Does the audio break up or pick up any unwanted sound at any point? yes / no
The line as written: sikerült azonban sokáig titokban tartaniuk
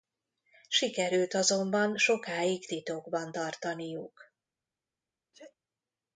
yes